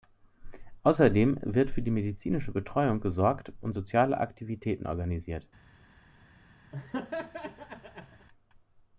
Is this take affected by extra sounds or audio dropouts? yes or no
yes